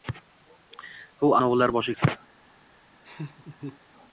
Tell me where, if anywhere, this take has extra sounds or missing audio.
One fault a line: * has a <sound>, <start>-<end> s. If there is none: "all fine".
* has a laugh, 3.0-3.8 s